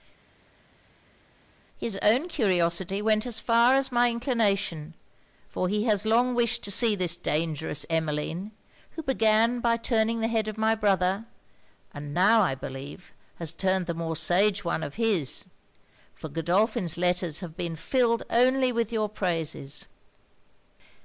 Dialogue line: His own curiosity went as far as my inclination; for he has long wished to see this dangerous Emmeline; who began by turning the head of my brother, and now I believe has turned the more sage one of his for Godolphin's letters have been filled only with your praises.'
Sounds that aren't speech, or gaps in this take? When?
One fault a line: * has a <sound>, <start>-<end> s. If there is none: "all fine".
all fine